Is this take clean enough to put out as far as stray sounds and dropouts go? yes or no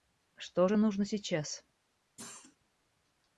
no